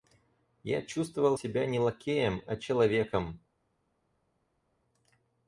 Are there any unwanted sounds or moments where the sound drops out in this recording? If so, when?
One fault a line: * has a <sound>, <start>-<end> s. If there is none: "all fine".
all fine